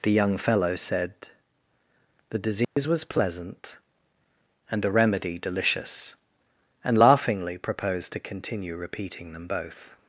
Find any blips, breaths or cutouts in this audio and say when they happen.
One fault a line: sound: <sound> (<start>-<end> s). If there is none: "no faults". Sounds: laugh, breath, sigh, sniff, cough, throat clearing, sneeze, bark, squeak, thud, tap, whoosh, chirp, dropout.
sound: dropout (2.6-2.8 s)